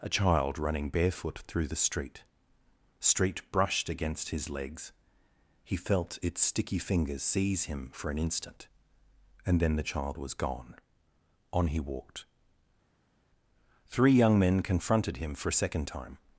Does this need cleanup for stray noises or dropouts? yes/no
no